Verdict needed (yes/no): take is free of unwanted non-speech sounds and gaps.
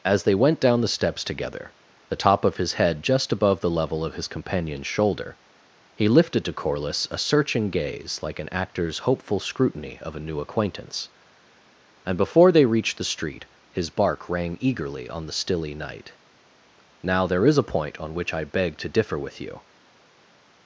yes